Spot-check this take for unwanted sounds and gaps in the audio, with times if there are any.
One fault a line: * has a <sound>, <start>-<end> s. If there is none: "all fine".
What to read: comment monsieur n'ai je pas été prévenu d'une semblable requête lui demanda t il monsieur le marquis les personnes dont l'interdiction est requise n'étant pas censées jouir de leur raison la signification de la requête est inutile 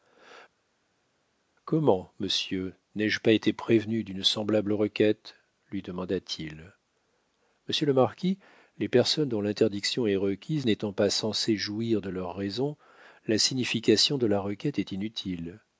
all fine